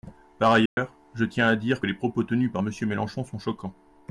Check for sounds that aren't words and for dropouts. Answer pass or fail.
fail